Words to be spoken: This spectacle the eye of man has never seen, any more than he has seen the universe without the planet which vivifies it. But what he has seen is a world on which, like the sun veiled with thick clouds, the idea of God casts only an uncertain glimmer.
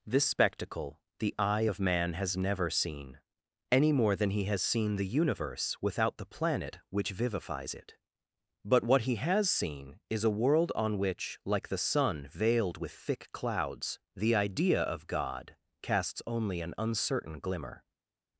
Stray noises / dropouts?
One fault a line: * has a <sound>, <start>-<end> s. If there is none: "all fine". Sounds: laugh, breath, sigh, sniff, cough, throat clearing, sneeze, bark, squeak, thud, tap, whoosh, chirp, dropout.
all fine